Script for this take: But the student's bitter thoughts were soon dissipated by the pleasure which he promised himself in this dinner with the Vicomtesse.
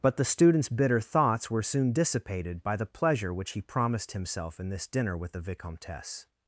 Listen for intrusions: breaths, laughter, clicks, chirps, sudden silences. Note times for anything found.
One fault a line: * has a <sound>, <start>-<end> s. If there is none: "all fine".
all fine